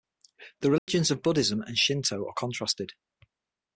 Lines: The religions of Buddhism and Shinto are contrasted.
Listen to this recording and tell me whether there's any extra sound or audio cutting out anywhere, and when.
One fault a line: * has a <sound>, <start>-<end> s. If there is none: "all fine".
* has a dropout, 0.8-0.9 s